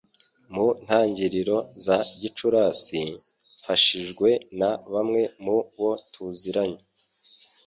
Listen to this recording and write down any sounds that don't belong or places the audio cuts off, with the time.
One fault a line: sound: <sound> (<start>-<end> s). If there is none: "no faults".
no faults